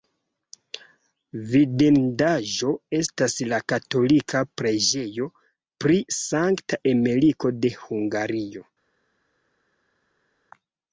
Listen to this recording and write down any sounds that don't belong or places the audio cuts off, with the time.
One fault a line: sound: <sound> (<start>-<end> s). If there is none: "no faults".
no faults